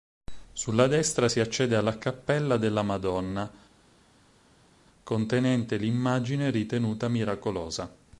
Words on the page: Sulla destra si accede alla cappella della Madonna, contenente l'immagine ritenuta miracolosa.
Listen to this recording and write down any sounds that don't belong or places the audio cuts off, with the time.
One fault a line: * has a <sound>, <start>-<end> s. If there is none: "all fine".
all fine